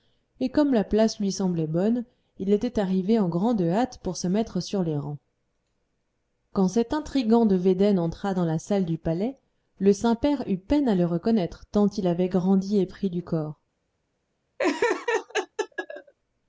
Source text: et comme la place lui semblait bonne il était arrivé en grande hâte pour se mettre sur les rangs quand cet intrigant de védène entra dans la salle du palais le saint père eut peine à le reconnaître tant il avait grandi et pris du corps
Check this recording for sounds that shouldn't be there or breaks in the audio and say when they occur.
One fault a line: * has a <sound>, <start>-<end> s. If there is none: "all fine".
* has a laugh, 14.6-16.1 s